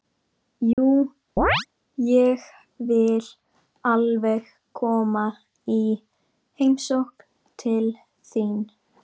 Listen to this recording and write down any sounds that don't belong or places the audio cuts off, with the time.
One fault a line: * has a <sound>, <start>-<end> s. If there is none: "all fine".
* has a dropout, 0.7-0.8 s
* has a chirp, 1.4-1.7 s